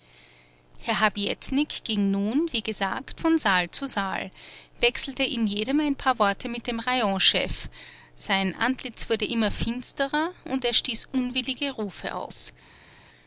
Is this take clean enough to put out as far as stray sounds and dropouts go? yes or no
yes